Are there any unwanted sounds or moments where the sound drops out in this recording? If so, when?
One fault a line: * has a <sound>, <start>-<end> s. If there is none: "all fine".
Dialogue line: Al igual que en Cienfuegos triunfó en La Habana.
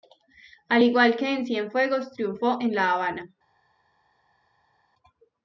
all fine